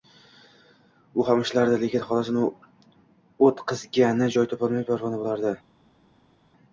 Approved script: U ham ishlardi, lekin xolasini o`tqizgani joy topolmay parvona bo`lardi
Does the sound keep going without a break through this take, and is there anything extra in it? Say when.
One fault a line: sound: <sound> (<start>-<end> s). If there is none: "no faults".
no faults